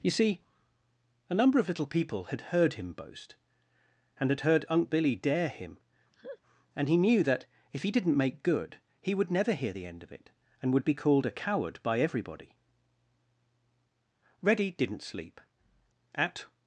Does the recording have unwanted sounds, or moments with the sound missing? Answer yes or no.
yes